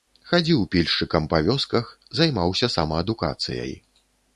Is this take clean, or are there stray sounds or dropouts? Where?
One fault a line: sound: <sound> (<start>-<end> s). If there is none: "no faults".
no faults